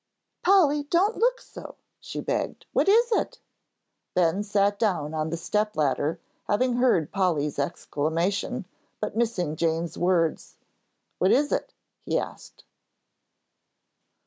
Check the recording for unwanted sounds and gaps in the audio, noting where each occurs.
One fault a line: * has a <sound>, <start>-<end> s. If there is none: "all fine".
all fine